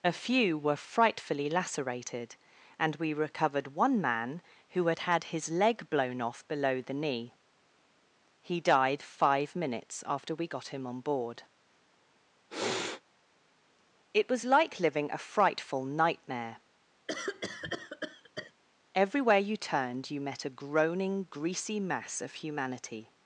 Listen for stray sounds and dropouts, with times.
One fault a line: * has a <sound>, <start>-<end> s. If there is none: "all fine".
* has a sniff, 12.5-13.0 s
* has a cough, 17.1-18.5 s